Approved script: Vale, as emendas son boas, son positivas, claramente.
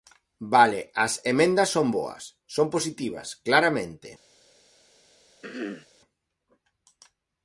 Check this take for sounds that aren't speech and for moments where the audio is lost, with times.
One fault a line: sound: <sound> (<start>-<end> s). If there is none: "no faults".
sound: throat clearing (5.4-5.9 s)